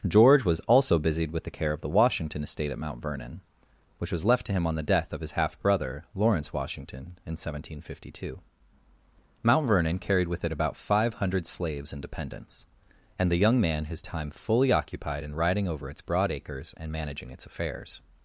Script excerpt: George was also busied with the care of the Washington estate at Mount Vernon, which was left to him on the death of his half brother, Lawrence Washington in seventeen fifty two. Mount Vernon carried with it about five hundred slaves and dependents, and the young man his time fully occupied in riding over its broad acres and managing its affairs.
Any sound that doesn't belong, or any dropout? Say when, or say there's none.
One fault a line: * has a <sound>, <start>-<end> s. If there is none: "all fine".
all fine